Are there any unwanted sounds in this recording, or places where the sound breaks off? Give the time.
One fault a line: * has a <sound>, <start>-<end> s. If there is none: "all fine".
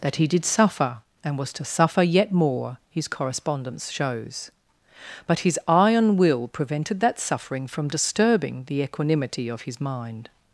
all fine